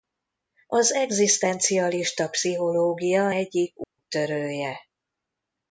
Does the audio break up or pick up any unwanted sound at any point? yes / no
yes